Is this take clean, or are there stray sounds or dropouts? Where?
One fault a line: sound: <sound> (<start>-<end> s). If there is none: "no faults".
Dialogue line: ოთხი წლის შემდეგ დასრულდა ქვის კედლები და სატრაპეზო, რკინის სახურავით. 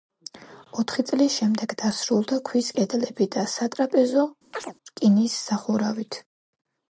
sound: chirp (4.5-4.7 s)